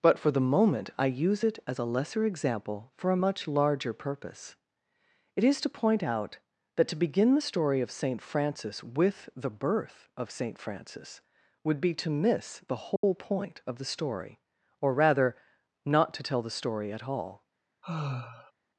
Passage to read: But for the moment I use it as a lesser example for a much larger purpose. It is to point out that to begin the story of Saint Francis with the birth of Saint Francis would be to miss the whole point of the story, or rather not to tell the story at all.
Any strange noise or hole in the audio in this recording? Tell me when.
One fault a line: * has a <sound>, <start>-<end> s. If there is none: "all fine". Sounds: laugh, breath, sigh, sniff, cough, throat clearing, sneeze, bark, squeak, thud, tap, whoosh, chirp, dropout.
* has a dropout, 13.0-13.0 s
* has a sigh, 17.8-18.5 s